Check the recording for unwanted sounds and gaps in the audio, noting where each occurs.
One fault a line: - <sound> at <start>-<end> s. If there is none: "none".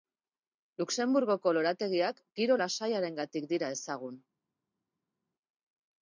none